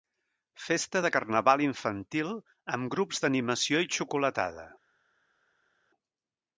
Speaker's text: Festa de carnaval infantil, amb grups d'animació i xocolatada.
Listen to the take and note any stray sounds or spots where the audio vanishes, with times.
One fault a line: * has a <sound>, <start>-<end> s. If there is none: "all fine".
all fine